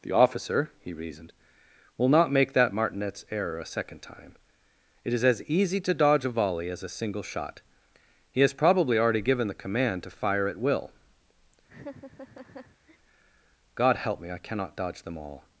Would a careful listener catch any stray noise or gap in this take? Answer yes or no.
yes